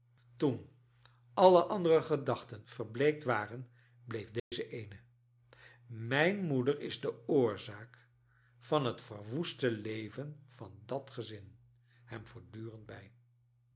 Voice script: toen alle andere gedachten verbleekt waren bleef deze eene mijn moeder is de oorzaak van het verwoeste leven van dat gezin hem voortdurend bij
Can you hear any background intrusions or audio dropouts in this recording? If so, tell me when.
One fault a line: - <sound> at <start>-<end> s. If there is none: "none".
- dropout at 4.4-4.5 s